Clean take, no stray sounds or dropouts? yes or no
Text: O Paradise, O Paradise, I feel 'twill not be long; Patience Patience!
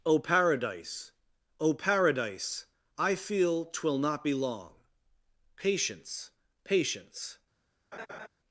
no